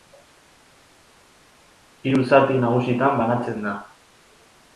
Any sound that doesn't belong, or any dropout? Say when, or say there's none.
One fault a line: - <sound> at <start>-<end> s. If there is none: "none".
none